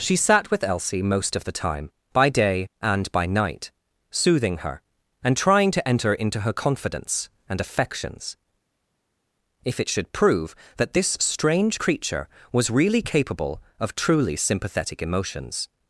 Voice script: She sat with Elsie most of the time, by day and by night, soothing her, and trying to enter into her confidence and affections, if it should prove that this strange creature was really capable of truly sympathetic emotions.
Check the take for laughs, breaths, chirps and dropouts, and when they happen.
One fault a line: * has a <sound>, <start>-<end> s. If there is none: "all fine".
all fine